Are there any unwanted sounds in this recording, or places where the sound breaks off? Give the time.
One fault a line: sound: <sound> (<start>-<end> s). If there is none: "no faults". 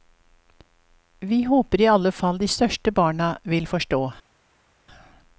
no faults